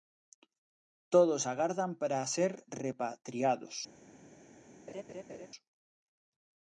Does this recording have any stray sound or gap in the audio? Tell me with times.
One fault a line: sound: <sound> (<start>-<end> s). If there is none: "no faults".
sound: laugh (4.9-5.5 s)